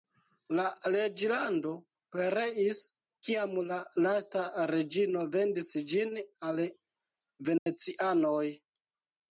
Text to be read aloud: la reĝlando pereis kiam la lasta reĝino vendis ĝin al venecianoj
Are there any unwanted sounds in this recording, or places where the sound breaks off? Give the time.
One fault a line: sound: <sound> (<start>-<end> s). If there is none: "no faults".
sound: dropout (7.6-7.7 s)